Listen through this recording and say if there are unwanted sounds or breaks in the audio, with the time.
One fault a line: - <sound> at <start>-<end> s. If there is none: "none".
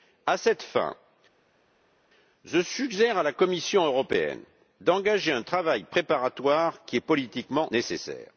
none